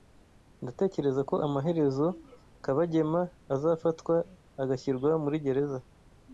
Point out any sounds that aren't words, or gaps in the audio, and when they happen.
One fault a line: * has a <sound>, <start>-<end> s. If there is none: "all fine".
all fine